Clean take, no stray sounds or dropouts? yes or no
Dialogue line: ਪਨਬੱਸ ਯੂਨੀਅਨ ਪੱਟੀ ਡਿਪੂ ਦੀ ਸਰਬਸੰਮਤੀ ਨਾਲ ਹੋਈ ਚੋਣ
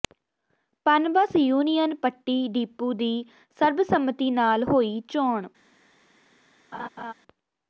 no